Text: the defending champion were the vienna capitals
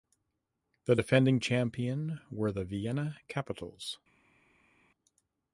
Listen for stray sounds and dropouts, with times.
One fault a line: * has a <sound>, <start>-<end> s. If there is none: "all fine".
all fine